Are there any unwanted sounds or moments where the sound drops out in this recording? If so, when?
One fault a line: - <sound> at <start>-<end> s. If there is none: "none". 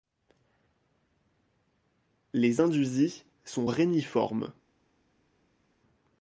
none